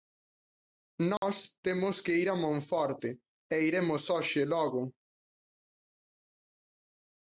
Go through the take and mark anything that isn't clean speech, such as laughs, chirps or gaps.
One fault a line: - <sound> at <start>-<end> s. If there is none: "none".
- dropout at 1.2-1.2 s